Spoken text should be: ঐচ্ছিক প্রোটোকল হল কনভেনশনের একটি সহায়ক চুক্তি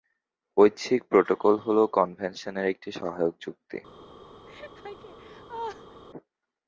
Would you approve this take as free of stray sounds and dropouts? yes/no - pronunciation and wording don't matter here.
no